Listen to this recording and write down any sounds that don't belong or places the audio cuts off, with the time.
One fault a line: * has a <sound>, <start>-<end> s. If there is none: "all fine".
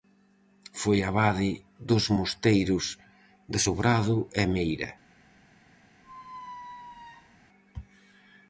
* has a squeak, 6.0-7.4 s